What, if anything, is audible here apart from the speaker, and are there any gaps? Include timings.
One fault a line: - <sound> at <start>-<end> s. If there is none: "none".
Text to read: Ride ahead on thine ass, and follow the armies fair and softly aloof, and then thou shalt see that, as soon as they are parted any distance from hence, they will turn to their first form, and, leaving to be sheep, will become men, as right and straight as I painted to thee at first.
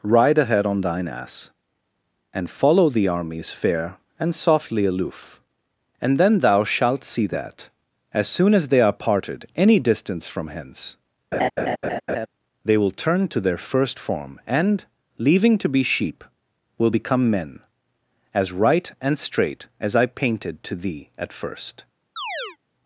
- laugh at 11.3-12.3 s
- chirp at 22.2-22.6 s